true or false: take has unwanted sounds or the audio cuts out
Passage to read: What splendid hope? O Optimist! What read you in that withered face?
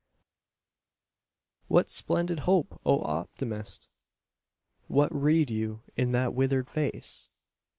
false